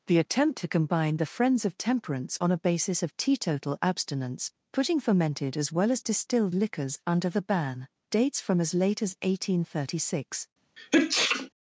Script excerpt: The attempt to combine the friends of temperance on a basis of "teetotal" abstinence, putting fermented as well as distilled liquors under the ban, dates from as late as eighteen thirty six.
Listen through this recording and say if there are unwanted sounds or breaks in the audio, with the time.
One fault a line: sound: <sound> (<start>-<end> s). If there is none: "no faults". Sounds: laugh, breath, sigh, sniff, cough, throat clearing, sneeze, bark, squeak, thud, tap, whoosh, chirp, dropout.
sound: sneeze (10.8-11.5 s)